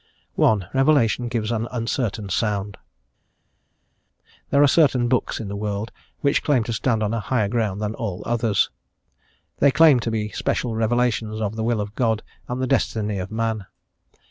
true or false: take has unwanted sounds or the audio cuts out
false